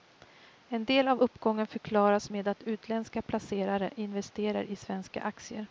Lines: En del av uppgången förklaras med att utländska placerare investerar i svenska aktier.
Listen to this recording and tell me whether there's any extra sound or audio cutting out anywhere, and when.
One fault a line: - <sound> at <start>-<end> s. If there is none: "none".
none